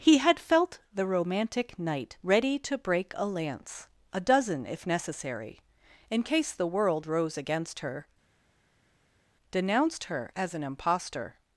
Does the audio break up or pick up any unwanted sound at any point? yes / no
no